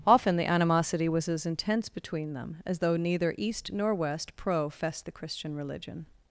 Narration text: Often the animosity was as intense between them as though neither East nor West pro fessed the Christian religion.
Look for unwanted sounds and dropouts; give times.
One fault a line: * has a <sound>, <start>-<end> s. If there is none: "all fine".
all fine